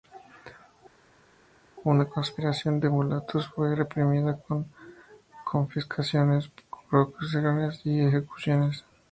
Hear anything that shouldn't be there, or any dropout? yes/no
no